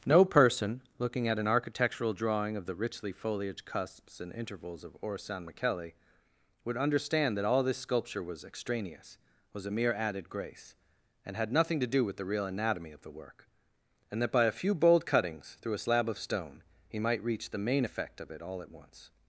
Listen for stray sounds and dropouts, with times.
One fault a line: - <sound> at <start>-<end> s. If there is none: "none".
none